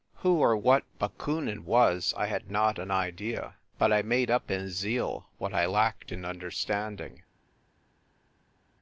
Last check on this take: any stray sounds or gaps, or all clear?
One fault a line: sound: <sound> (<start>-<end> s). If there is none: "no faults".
no faults